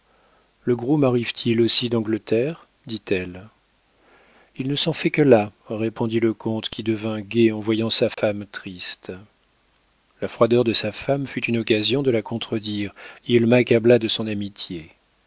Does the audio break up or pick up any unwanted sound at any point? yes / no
yes